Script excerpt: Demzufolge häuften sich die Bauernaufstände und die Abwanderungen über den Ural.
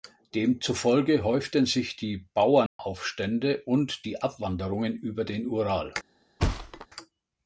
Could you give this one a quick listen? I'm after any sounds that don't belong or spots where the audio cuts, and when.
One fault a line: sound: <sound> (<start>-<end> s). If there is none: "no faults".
sound: dropout (2.7-2.8 s)
sound: thud (6.4-6.9 s)